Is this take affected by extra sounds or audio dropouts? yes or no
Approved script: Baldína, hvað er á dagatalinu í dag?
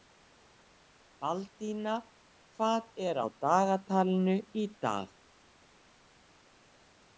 no